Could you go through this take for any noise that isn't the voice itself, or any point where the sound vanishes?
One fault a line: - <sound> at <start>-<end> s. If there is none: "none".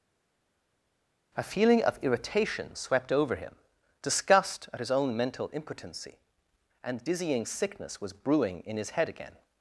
none